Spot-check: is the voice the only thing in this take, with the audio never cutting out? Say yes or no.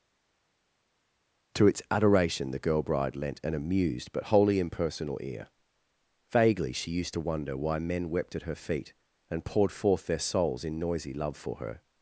yes